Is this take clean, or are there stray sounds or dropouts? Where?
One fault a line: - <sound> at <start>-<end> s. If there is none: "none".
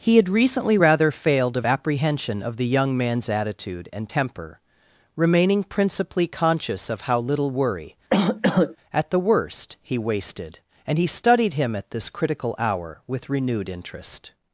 - cough at 8.1-8.8 s